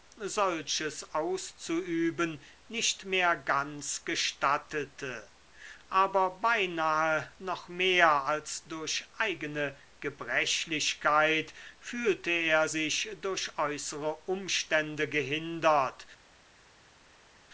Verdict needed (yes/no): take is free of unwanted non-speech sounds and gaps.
yes